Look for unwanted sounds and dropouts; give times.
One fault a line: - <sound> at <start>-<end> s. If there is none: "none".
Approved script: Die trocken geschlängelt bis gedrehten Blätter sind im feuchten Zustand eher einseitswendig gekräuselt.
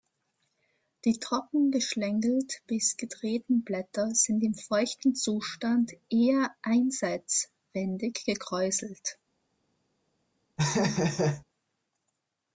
- laugh at 10.6-11.4 s